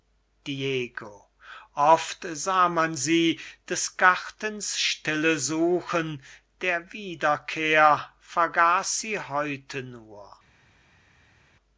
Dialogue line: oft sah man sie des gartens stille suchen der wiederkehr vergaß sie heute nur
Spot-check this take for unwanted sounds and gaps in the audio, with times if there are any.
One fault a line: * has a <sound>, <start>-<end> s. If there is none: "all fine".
all fine